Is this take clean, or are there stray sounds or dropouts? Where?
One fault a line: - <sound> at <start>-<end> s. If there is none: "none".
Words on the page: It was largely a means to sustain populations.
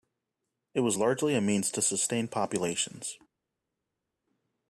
none